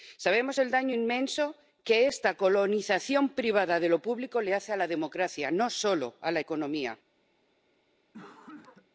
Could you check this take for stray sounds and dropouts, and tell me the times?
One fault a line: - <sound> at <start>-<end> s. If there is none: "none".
- cough at 8.1-8.9 s